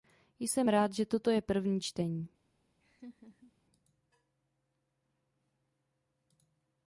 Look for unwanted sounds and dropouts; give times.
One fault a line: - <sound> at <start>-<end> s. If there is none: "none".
- laugh at 2.8-3.5 s